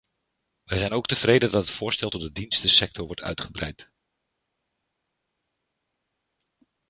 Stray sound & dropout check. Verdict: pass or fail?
pass